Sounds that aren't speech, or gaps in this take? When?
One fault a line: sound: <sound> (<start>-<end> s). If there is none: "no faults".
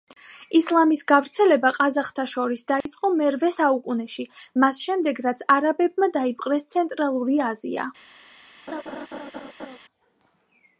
sound: dropout (2.8-2.9 s)
sound: laugh (8.7-9.8 s)